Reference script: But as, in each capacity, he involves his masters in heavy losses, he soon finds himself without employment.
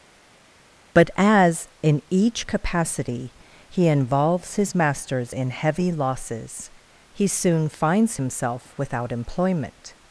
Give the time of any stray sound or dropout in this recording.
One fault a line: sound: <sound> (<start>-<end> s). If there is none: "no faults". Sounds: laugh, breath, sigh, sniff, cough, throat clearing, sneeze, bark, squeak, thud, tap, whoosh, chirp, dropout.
no faults